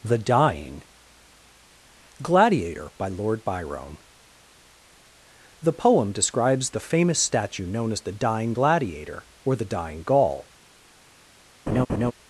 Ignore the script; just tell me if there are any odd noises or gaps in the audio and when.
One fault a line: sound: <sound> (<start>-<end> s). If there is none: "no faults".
sound: laugh (11.7-12.1 s)